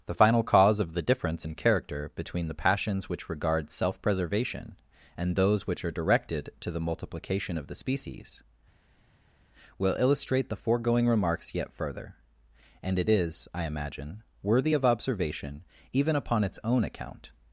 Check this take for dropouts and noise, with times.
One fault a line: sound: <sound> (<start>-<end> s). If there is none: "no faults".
no faults